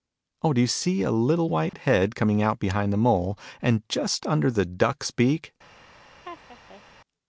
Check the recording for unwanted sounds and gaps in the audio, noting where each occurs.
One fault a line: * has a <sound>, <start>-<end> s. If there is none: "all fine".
* has a dropout, 1.7-1.7 s
* has a laugh, 6.2-6.8 s